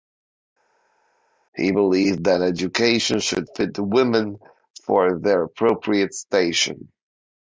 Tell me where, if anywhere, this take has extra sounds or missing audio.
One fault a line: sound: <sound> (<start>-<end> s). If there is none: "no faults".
no faults